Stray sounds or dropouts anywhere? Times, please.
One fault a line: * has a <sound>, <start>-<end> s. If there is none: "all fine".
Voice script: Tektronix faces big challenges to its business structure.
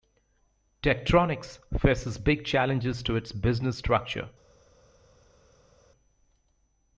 all fine